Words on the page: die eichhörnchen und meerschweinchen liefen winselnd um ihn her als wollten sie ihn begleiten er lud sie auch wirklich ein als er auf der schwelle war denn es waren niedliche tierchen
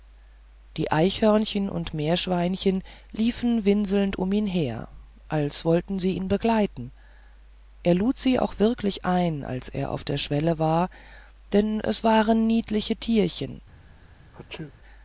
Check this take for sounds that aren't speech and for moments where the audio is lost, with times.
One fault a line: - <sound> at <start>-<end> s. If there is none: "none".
- sneeze at 14.3-14.7 s